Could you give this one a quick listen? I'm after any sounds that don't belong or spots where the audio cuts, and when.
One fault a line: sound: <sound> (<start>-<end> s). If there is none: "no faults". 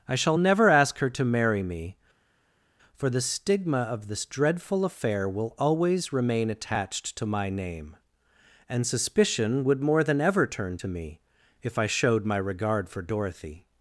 no faults